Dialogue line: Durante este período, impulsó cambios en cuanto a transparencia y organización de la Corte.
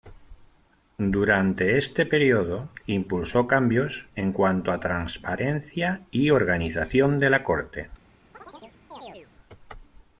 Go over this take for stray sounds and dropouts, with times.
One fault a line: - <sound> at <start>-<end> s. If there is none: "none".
- chirp at 8.3-9.3 s